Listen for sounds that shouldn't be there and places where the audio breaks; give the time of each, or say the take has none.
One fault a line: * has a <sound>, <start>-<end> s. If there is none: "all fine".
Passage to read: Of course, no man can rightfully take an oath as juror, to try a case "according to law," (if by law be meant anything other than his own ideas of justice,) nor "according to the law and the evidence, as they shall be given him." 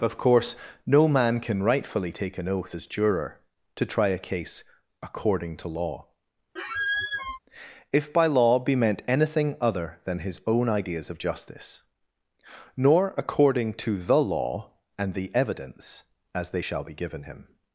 * has a squeak, 6.6-7.4 s